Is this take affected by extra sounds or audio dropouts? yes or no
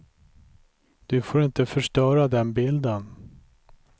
no